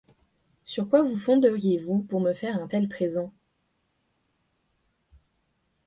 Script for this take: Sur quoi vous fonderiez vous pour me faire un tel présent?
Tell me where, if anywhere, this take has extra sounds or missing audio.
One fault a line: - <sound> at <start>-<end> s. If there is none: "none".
none